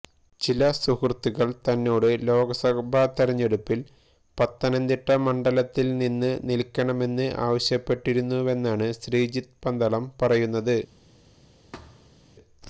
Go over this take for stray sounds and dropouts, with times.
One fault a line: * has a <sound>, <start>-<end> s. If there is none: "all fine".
* has a thud, 11.7-12.3 s